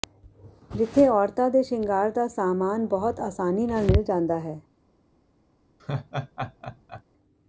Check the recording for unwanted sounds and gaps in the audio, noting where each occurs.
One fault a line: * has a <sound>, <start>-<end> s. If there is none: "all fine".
* has a laugh, 5.8-7.0 s